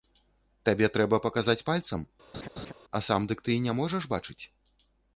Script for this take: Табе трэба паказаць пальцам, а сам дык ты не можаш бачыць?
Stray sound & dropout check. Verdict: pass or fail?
fail